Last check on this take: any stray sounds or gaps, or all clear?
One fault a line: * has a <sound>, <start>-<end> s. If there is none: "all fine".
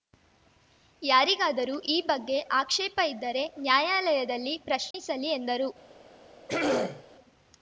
* has a dropout, 4.9-4.9 s
* has a throat clearing, 6.5-7.0 s